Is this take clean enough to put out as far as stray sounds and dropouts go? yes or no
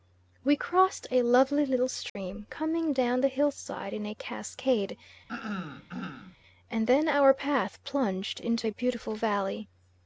no